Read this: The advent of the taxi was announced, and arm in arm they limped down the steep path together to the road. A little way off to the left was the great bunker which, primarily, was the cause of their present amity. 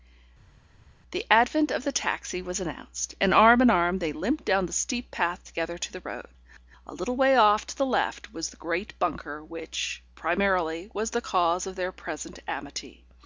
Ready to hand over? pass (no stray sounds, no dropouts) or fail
pass